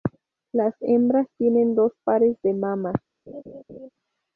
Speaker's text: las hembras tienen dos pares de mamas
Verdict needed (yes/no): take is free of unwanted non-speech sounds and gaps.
no